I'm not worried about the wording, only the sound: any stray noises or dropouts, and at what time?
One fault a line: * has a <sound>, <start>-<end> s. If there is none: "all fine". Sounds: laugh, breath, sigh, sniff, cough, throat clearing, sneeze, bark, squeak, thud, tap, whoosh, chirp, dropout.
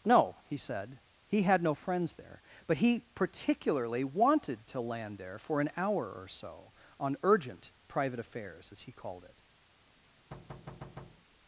* has a thud, 10.3-11.3 s